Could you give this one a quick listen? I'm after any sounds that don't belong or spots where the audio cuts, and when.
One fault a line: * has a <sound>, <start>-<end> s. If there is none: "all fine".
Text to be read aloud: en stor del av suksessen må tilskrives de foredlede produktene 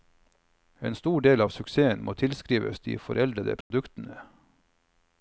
* has a dropout, 3.6-3.7 s